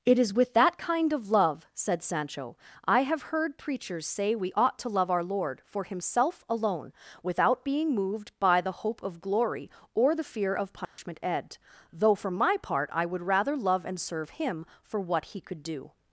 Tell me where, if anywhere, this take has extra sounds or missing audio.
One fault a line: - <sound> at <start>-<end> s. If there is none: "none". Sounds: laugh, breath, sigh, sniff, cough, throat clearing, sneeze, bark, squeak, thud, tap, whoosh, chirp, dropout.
- dropout at 10.8-11.0 s